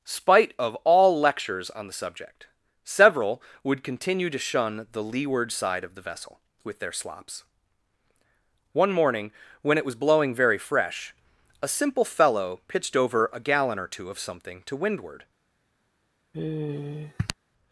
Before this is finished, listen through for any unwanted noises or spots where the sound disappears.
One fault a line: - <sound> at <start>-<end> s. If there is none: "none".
- sigh at 16.3-17.3 s